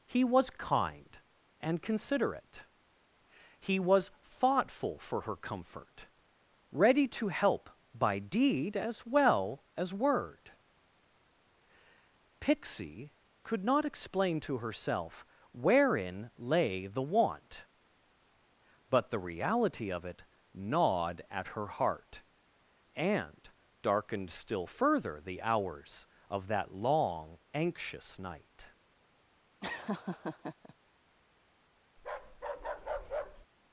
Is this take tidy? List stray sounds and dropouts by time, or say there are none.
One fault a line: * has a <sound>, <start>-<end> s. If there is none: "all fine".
* has a laugh, 29.6-30.7 s
* has a bark, 32.0-33.5 s